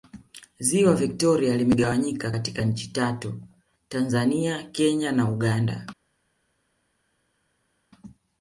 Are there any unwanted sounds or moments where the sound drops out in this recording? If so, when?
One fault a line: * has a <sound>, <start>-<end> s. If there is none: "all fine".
all fine